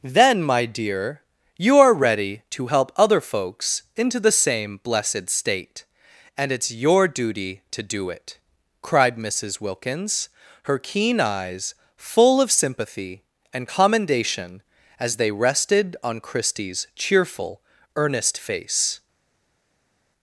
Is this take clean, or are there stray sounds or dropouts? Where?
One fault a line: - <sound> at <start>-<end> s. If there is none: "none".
none